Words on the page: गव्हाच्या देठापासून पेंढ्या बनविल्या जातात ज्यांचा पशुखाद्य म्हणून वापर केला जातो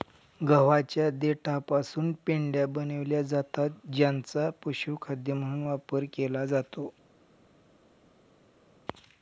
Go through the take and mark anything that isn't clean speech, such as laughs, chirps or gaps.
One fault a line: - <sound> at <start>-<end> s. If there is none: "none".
none